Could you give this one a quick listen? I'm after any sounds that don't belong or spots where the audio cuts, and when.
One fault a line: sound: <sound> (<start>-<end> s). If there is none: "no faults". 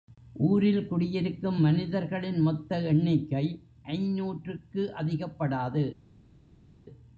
no faults